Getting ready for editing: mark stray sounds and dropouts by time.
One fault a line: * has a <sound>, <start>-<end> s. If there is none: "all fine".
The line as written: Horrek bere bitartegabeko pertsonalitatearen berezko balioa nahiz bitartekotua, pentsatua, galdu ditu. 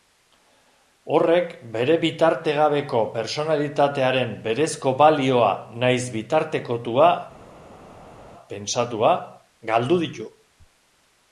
all fine